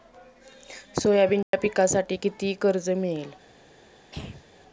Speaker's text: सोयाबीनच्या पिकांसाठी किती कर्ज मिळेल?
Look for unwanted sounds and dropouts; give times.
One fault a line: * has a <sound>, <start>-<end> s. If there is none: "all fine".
* has a dropout, 1.4-1.5 s
* has a throat clearing, 4.1-4.4 s